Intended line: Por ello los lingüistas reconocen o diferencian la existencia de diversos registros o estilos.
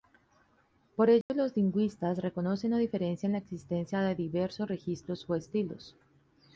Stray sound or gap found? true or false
true